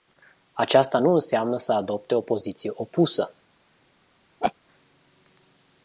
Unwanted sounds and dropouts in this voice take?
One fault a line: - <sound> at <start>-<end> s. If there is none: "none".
- laugh at 4.4-4.5 s